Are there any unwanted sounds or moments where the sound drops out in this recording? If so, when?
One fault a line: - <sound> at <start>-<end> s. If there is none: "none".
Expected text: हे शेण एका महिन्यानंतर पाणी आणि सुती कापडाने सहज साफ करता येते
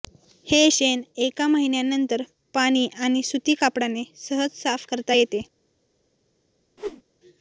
- whoosh at 6.8-7.0 s